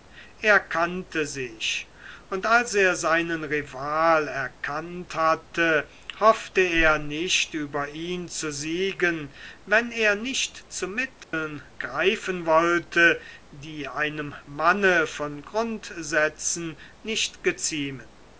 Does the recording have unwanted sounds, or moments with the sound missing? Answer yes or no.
yes